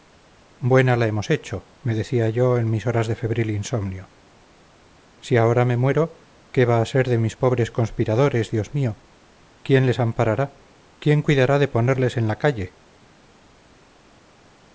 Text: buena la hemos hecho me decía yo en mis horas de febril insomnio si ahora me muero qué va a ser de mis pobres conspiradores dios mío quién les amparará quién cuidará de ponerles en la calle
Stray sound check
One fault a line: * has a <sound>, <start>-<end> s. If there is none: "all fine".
all fine